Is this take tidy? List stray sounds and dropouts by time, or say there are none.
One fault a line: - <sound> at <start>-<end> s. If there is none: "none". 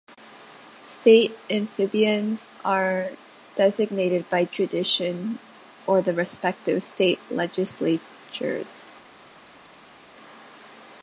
none